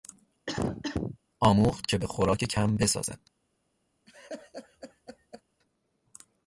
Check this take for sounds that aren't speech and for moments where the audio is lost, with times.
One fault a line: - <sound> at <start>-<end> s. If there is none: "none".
- cough at 0.5-1.2 s
- laugh at 4.1-5.4 s